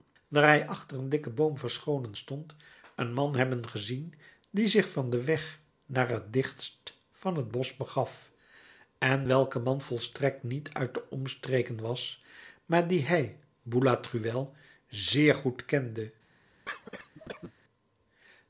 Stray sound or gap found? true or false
true